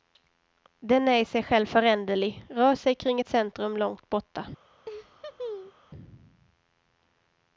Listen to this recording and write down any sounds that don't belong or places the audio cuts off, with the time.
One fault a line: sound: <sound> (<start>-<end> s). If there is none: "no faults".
sound: laugh (4.8-5.8 s)